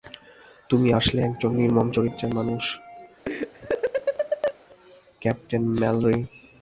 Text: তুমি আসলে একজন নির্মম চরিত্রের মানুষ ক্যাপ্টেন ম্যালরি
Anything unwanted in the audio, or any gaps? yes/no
yes